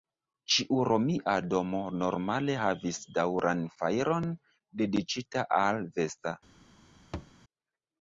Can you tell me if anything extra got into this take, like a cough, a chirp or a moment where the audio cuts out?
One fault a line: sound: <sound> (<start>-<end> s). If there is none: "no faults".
sound: thud (7.1-7.3 s)